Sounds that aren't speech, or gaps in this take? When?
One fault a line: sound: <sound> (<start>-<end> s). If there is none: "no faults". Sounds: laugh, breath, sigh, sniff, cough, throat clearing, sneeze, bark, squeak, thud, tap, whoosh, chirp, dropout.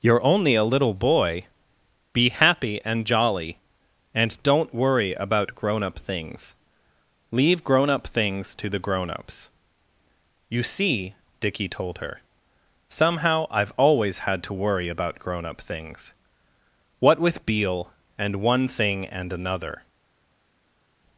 no faults